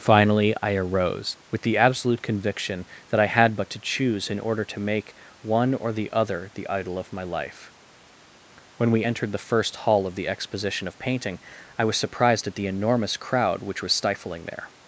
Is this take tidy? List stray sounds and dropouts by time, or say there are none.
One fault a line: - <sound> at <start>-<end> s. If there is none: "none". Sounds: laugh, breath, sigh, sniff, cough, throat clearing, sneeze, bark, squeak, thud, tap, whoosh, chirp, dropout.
none